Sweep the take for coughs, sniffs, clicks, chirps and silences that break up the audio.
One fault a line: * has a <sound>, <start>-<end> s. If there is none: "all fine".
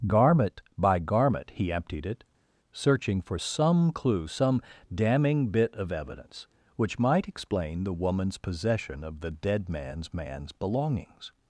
all fine